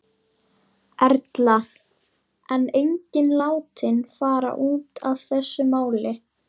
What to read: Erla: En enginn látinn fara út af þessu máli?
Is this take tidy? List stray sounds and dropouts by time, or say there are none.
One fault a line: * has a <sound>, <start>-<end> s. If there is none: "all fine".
all fine